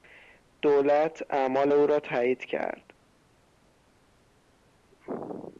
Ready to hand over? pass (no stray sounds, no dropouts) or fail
pass